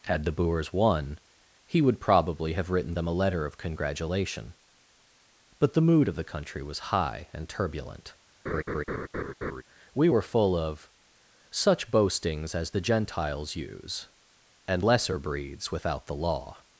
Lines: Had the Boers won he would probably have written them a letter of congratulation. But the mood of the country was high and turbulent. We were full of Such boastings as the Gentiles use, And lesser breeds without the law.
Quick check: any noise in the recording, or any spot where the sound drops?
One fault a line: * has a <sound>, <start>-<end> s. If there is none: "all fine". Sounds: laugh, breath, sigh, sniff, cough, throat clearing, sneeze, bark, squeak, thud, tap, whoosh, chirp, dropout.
* has a laugh, 8.5-9.6 s